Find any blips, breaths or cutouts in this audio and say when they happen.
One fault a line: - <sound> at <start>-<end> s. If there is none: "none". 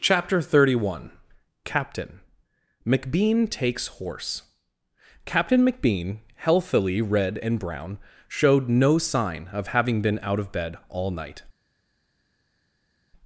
none